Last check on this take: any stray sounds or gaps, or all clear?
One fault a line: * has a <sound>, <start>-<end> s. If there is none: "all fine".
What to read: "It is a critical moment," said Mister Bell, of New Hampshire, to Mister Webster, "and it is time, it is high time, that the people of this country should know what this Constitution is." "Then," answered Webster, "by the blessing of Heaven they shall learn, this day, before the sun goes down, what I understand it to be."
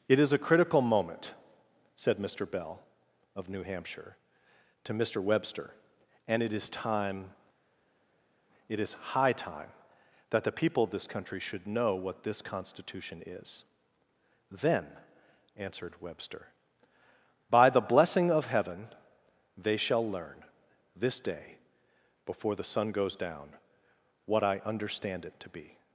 all fine